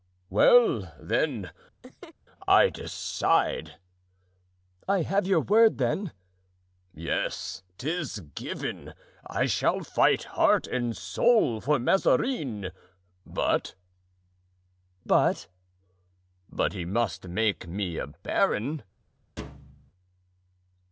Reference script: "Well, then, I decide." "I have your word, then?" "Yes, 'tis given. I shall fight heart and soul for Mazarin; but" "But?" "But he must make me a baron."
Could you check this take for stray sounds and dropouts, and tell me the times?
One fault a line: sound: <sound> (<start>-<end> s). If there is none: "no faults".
sound: laugh (1.8-2.1 s)
sound: thud (19.4-19.9 s)